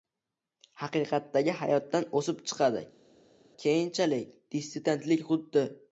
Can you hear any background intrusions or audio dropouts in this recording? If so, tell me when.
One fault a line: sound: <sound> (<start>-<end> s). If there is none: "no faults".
no faults